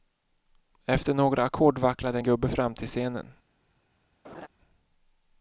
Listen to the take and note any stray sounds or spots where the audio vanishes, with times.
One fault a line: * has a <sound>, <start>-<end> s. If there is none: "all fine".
* has a laugh, 4.2-4.5 s